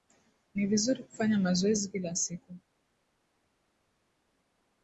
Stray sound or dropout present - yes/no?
no